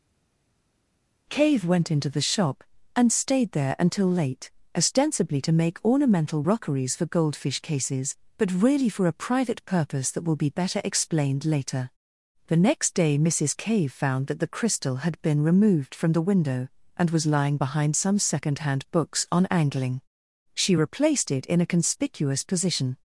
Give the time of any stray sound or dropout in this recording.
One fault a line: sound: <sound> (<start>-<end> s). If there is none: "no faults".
no faults